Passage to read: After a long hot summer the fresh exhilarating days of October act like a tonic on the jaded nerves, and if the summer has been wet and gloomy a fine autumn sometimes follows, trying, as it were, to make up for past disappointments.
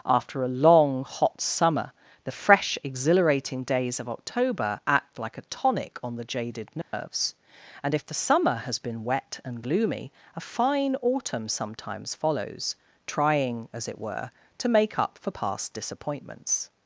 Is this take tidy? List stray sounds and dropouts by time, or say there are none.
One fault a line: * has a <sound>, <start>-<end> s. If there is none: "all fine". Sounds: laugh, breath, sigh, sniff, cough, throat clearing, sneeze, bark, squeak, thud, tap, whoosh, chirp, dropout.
* has a dropout, 6.8-6.9 s